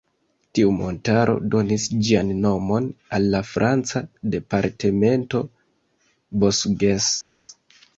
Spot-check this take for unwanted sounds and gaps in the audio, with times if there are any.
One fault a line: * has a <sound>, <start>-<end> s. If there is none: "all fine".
all fine